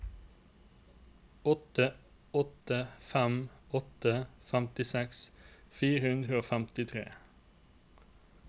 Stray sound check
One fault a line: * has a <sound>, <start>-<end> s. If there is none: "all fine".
all fine